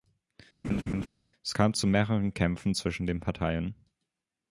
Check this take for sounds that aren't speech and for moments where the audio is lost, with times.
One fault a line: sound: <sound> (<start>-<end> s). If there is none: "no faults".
sound: laugh (0.6-1.1 s)